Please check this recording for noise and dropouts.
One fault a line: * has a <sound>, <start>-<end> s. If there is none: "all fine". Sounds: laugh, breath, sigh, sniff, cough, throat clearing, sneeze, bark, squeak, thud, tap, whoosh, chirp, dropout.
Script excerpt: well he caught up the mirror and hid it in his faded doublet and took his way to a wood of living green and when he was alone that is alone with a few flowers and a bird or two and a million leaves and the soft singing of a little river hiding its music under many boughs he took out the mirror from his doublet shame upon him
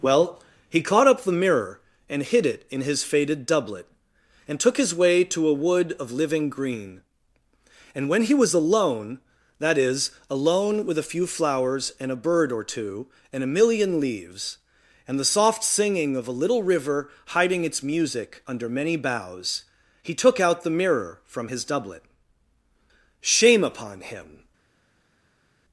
all fine